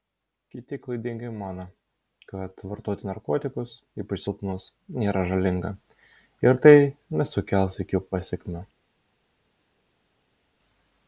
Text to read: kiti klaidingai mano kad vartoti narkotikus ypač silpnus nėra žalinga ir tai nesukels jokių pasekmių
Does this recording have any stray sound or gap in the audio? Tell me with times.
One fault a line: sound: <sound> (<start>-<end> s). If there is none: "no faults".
no faults